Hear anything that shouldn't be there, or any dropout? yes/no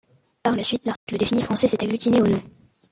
yes